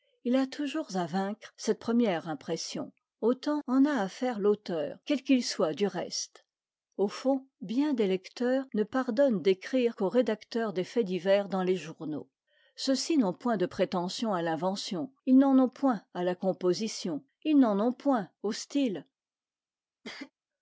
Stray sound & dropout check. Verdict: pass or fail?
fail